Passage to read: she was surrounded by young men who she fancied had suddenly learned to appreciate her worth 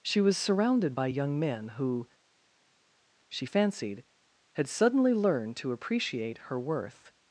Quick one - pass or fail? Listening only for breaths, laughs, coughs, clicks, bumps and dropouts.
pass